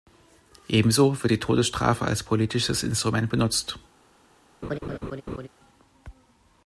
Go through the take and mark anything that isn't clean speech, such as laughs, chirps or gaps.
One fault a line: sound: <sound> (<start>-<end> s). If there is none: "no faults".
sound: laugh (4.6-5.5 s)